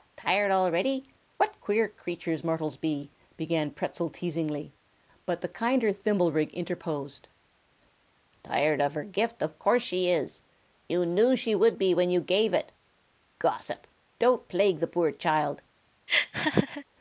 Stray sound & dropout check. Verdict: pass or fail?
fail